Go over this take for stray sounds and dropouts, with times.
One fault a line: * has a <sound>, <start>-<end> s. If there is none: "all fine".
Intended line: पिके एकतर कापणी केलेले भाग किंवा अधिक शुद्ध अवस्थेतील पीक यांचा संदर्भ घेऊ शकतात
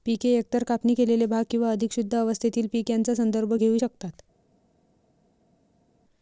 all fine